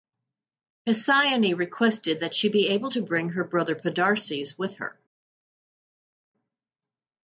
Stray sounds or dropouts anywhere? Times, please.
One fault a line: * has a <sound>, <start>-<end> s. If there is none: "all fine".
all fine